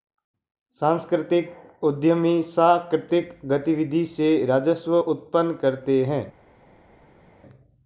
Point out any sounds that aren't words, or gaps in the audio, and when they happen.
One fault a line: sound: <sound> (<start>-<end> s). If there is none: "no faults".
no faults